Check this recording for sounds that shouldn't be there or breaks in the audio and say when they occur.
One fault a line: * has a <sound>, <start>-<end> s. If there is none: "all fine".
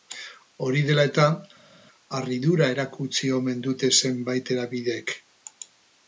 all fine